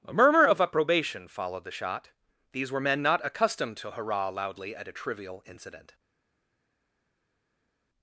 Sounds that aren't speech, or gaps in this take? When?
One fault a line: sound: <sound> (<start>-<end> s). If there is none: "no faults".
no faults